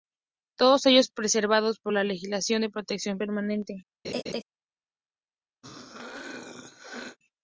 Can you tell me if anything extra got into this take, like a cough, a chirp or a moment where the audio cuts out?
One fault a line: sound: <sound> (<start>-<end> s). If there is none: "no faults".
sound: laugh (4.0-4.4 s)
sound: throat clearing (5.6-7.2 s)